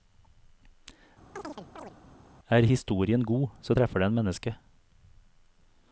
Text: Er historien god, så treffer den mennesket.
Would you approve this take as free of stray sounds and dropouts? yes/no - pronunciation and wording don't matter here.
no